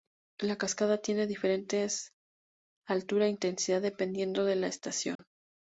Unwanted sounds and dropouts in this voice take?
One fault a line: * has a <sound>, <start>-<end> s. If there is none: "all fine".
* has a dropout, 5.2-5.2 s